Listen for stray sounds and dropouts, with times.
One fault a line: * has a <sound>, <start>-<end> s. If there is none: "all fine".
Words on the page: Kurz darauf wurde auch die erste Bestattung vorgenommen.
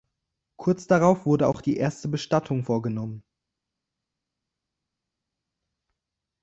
all fine